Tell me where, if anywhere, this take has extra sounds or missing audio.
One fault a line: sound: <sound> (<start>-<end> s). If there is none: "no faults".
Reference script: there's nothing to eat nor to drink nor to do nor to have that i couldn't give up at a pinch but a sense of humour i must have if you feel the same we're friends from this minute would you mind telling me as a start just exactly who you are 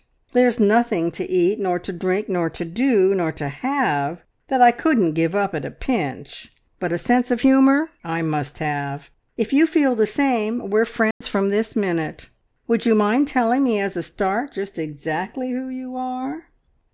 sound: dropout (11.1-11.2 s)